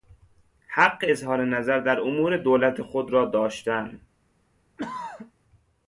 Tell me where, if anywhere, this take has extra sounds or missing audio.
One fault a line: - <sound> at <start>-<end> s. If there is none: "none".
- throat clearing at 4.8-5.3 s